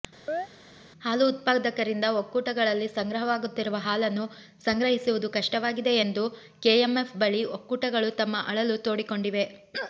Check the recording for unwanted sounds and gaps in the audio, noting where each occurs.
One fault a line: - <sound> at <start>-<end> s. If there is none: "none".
- chirp at 0.3-0.5 s